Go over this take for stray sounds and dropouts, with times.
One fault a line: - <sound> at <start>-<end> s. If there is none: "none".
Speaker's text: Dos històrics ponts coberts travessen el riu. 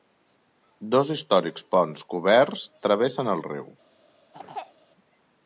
- throat clearing at 4.3-4.7 s